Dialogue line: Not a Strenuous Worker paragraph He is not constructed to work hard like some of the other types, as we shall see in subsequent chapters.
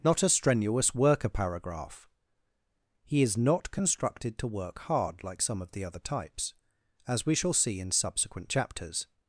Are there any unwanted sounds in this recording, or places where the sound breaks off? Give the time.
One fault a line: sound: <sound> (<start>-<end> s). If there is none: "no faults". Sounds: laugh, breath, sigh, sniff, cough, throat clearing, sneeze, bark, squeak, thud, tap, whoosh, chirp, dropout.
no faults